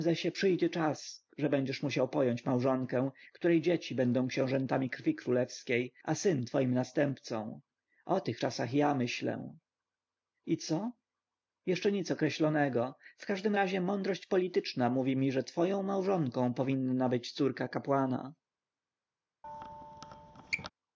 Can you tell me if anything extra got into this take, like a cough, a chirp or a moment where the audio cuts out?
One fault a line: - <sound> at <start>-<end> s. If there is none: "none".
- squeak at 19.4-20.7 s